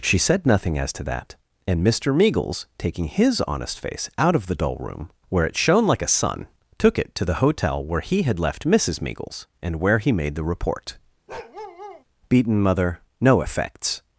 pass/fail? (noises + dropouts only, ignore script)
fail